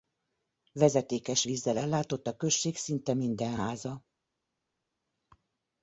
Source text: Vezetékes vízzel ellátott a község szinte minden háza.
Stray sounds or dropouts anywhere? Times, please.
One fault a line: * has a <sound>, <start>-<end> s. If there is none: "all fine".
all fine